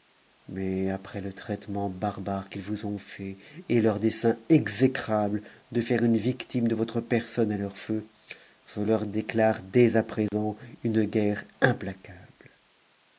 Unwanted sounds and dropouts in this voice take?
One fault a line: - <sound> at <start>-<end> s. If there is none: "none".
- dropout at 10.3-10.3 s